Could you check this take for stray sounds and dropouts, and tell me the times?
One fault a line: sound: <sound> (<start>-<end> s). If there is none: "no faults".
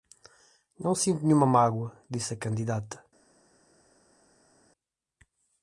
no faults